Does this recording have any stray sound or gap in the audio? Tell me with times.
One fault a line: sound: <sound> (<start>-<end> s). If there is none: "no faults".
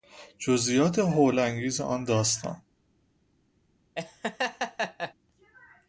sound: laugh (3.9-5.1 s)